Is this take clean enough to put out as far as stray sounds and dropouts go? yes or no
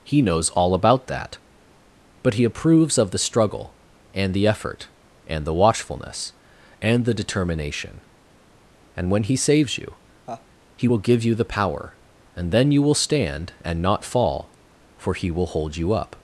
no